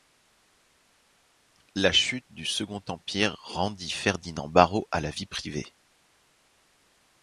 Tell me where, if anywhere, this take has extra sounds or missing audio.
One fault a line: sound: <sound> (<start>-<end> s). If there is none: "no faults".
no faults